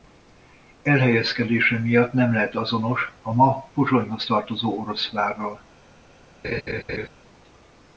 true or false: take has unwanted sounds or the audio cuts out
true